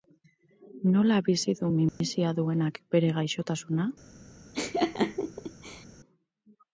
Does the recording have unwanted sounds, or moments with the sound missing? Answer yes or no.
yes